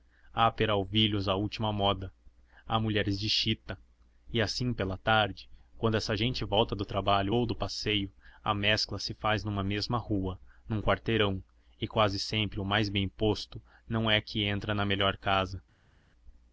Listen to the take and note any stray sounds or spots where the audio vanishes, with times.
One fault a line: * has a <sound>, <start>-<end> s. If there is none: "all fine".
all fine